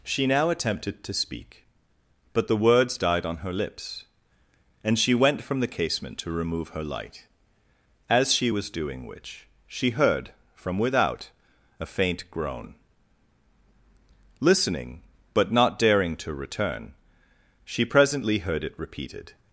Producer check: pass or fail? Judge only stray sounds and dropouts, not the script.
pass